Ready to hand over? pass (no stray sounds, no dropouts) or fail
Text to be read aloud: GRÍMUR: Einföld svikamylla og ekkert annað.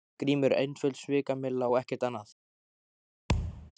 fail